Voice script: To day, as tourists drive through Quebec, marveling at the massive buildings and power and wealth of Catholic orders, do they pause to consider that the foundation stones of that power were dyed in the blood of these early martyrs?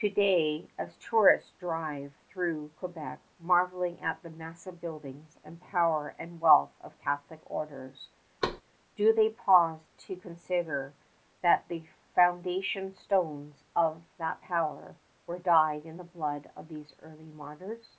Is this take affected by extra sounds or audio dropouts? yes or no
yes